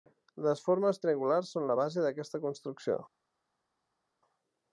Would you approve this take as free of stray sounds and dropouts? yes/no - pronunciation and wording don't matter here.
yes